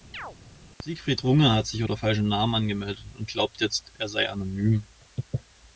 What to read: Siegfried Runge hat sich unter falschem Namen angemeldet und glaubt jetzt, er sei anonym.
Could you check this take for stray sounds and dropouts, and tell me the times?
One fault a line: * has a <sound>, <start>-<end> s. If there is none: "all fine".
* has a chirp, 0.1-0.4 s